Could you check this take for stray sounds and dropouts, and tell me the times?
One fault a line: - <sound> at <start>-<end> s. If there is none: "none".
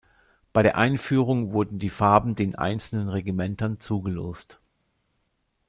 none